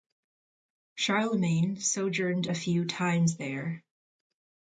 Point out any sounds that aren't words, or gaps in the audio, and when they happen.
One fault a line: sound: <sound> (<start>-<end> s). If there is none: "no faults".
no faults